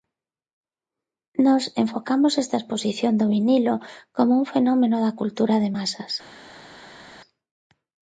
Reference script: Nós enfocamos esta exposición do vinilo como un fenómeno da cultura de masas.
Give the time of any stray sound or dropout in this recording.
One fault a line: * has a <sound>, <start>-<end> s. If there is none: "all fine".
all fine